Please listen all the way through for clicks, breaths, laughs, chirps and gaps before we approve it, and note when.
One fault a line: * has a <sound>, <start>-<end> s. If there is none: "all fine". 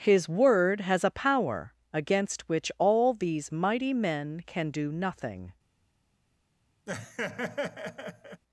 * has a laugh, 6.9-8.4 s